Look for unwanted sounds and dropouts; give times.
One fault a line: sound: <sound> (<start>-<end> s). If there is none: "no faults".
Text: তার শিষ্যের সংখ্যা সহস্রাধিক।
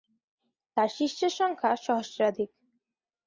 no faults